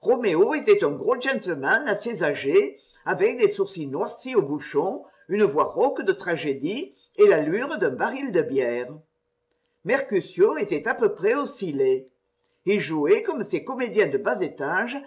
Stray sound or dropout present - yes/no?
no